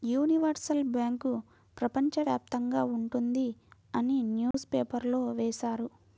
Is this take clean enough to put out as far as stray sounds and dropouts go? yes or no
no